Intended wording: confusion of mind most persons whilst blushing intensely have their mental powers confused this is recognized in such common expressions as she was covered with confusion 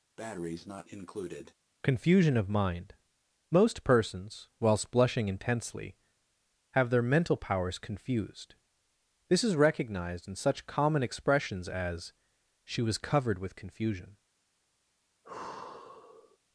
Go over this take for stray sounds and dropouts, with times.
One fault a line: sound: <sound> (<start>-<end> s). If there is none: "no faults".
sound: breath (0.2-1.5 s)
sound: sigh (15.2-16.4 s)